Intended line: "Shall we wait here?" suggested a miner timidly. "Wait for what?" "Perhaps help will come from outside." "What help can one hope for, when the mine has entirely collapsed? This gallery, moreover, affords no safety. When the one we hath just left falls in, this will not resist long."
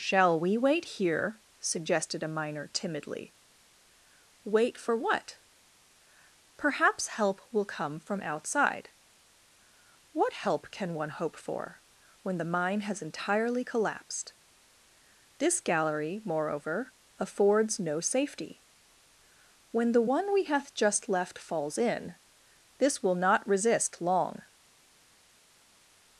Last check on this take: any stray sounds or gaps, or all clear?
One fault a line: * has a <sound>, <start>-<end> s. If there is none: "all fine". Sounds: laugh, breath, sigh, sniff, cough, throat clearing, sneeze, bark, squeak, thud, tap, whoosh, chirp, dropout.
all fine